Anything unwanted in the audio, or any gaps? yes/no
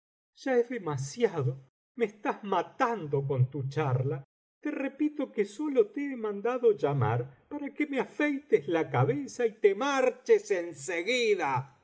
no